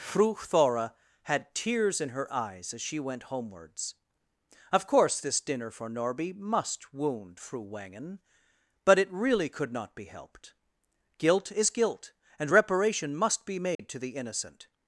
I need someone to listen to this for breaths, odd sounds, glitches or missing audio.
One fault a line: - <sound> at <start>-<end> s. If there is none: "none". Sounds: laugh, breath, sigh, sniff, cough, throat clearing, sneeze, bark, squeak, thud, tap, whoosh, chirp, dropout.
- dropout at 13.7-13.8 s